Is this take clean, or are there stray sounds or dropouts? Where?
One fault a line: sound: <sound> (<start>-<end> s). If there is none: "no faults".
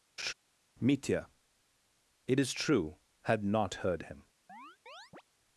sound: laugh (0.2-0.3 s)
sound: chirp (4.5-5.2 s)